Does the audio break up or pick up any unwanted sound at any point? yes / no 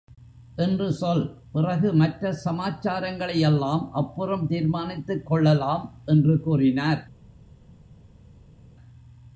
no